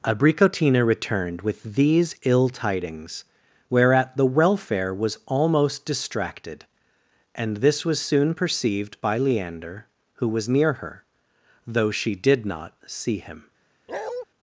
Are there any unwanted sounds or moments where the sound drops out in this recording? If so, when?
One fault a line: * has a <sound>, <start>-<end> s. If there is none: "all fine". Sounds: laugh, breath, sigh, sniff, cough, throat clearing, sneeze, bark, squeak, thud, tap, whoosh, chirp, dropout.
* has a bark, 13.9-14.3 s